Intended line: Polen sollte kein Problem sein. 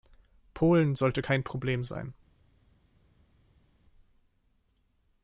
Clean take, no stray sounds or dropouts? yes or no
yes